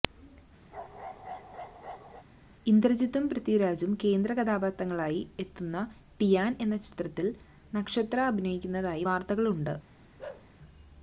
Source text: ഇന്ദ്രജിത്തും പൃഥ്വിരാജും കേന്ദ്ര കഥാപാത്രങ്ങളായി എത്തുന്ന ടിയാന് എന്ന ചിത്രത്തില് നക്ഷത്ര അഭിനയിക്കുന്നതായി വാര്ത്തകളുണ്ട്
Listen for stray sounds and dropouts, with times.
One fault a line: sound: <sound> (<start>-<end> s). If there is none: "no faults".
sound: bark (0.7-2.3 s)
sound: bark (10.2-10.5 s)